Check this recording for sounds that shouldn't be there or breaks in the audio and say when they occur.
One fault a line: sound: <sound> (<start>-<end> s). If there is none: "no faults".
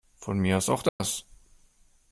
sound: dropout (0.9-1.0 s)